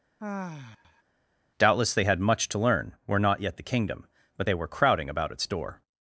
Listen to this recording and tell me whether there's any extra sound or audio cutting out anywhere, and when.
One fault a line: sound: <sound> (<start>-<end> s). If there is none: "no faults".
sound: sigh (0.2-1.0 s)